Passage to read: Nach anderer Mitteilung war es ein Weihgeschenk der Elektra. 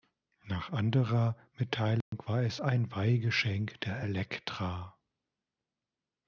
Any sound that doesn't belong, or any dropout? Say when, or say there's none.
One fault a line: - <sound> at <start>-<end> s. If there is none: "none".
- dropout at 2.0-2.1 s